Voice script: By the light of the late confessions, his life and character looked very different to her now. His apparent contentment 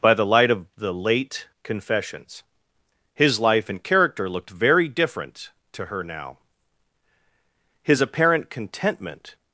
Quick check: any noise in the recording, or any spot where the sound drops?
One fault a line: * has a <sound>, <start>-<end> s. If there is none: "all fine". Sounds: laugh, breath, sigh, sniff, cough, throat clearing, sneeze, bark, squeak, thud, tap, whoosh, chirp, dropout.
all fine